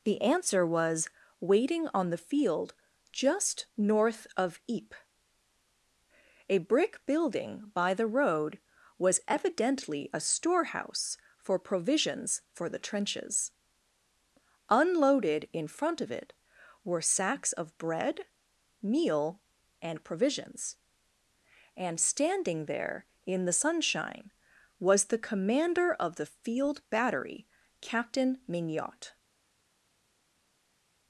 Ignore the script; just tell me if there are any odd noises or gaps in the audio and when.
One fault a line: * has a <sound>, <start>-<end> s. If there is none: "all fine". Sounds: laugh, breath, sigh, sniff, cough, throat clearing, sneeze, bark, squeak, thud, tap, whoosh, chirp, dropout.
all fine